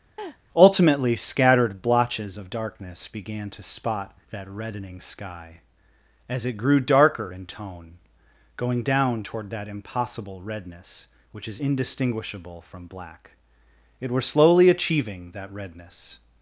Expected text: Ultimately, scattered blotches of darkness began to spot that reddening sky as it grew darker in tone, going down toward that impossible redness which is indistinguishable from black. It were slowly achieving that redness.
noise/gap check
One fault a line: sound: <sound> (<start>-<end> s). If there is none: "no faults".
sound: laugh (0.2-0.4 s)